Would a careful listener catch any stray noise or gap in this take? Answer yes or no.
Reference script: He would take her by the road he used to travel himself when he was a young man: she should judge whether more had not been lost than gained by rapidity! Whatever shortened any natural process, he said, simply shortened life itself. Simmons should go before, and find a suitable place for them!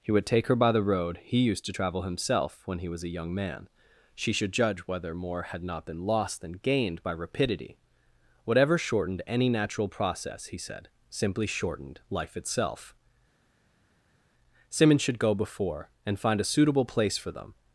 no